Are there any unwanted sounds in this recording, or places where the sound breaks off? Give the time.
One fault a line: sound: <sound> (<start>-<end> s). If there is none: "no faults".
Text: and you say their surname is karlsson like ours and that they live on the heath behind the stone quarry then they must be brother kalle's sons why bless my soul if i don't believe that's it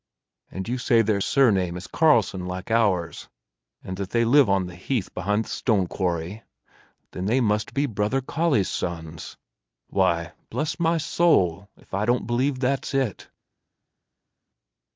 no faults